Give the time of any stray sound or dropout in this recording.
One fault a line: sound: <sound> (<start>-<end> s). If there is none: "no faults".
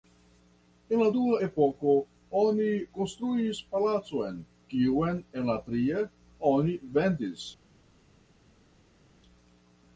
no faults